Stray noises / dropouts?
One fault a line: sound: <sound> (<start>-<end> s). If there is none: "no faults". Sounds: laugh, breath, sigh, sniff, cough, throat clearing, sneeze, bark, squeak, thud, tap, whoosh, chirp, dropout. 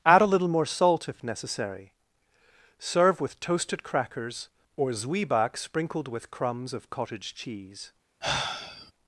sound: sigh (8.2-8.9 s)